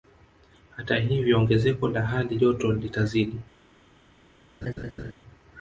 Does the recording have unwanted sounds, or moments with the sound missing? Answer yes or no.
yes